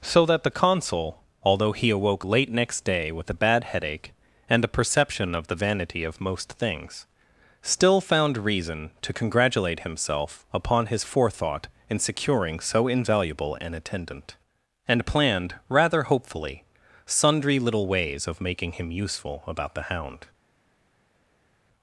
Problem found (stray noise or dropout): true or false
false